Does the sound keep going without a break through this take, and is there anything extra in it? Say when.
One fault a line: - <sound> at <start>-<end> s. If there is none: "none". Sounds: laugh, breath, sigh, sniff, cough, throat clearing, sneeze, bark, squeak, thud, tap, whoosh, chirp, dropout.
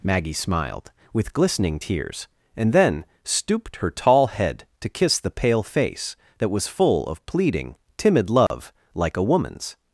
- dropout at 8.5-8.5 s